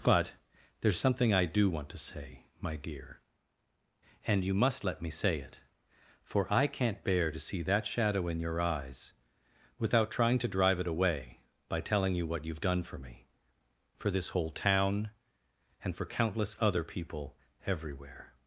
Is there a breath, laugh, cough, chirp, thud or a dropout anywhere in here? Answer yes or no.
no